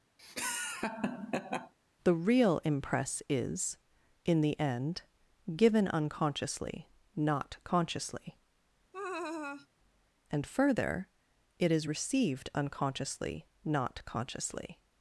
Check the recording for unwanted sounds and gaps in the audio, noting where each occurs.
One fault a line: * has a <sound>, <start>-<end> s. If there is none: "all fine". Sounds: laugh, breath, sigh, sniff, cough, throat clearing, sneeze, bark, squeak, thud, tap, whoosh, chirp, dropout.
* has a laugh, 0.2-1.7 s
* has a laugh, 8.9-9.7 s